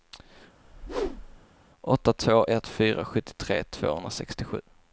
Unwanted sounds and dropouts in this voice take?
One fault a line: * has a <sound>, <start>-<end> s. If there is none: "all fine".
* has a whoosh, 0.6-1.4 s